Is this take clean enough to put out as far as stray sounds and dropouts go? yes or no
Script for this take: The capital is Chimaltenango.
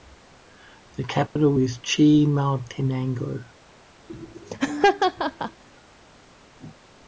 no